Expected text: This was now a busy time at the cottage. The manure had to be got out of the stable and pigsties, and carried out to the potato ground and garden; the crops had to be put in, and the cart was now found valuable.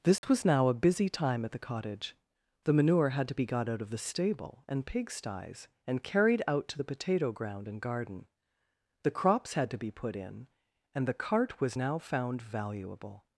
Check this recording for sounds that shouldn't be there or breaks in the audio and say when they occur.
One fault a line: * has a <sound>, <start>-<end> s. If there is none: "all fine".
* has a dropout, 0.2-0.2 s